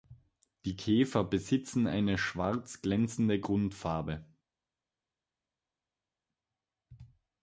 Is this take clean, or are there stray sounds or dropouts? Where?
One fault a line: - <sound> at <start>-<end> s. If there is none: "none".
none